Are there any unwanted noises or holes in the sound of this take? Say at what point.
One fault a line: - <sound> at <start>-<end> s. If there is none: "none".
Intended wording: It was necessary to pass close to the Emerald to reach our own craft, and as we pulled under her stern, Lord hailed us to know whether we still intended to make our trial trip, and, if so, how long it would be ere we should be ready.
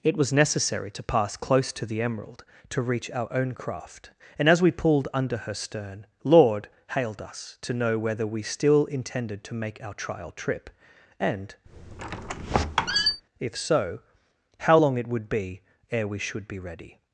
- squeak at 11.7-13.2 s